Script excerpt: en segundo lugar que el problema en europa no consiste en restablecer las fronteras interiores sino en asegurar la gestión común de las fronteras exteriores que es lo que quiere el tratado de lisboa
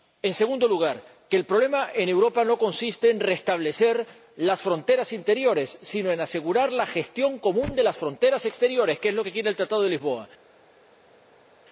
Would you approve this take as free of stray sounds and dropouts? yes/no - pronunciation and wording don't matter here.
yes